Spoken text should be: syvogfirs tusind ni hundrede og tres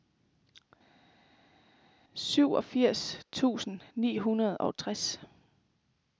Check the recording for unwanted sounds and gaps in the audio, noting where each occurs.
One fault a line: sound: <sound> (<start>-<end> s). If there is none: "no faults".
no faults